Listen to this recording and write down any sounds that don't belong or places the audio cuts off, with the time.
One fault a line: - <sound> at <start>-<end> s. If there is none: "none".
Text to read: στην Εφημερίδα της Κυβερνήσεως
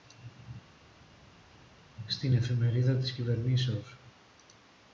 none